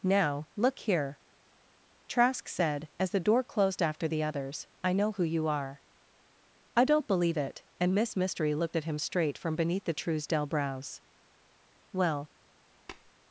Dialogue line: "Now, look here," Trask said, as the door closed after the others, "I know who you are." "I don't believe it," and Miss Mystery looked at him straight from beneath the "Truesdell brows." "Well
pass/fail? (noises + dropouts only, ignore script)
fail